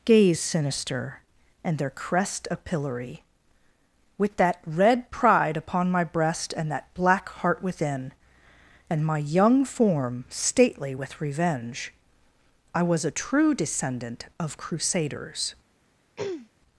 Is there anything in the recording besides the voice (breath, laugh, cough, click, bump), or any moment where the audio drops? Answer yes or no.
yes